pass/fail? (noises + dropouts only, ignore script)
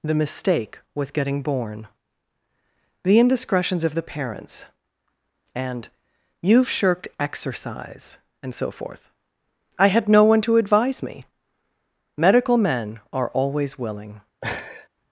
fail